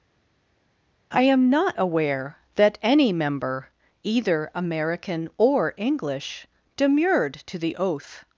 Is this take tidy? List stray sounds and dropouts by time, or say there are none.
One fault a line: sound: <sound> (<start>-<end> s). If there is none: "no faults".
no faults